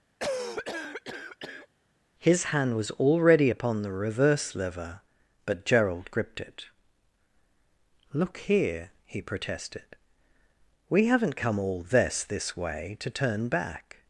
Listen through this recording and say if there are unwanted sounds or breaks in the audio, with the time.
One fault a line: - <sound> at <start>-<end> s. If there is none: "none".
- cough at 0.2-1.7 s